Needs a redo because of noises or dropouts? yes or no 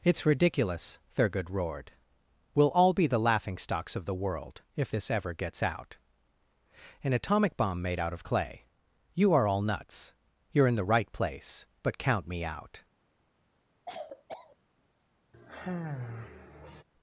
yes